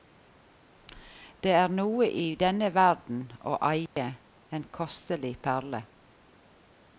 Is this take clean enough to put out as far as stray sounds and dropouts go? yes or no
no